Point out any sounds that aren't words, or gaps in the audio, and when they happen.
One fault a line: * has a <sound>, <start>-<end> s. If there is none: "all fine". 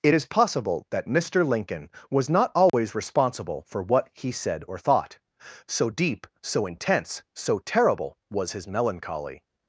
* has a dropout, 2.7-2.7 s